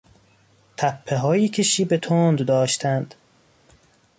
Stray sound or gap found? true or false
false